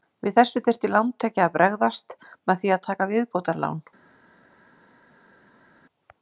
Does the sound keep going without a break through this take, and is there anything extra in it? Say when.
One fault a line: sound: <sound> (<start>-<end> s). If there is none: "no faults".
no faults